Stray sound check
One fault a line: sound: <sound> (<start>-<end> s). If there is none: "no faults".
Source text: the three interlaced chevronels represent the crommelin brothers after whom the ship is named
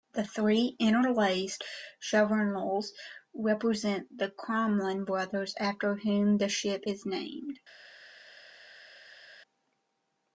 no faults